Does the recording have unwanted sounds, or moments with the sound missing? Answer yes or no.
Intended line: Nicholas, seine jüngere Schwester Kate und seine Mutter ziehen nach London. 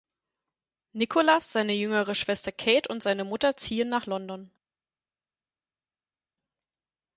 no